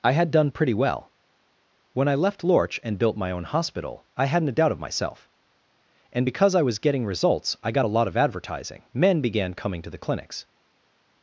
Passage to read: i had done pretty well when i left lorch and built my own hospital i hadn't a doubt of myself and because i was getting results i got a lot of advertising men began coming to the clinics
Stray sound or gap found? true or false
false